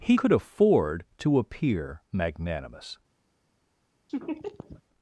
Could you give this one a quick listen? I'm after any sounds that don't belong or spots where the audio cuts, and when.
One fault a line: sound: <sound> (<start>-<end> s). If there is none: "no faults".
sound: laugh (4.1-4.8 s)